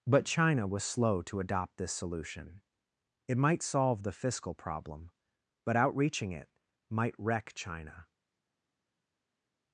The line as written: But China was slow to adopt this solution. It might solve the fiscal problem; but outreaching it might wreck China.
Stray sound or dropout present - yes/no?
no